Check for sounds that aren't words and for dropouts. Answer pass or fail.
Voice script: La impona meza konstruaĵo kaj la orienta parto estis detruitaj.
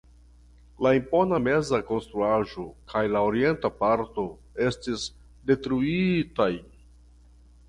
pass